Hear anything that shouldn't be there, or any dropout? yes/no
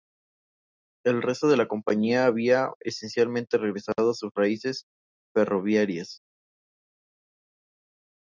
no